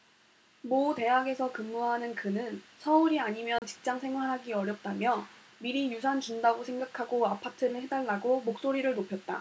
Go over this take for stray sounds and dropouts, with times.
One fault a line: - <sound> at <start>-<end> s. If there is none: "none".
- dropout at 3.6-3.6 s